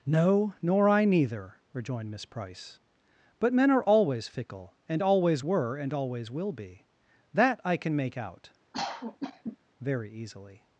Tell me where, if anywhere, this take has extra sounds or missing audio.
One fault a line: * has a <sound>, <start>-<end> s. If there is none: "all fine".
* has a cough, 8.7-9.6 s